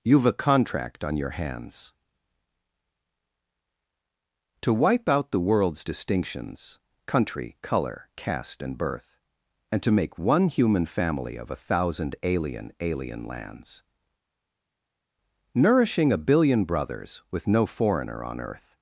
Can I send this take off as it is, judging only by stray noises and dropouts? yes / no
yes